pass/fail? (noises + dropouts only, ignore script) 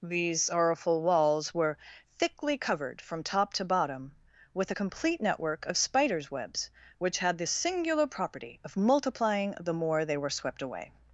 pass